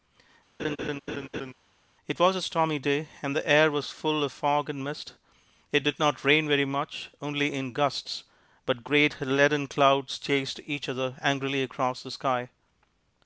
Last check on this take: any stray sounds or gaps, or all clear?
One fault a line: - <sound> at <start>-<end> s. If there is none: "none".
- laugh at 0.6-1.5 s